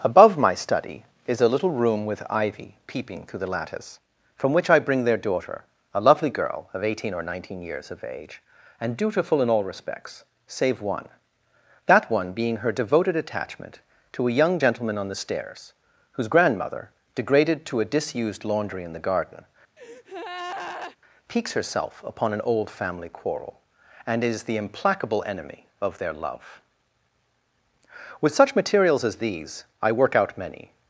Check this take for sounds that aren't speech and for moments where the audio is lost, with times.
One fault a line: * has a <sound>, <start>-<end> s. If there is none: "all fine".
* has a breath, 19.8-21.0 s